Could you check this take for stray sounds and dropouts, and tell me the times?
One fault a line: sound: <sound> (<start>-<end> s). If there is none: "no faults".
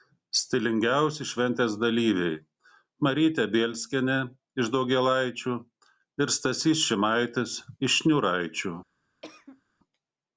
sound: cough (9.2-9.6 s)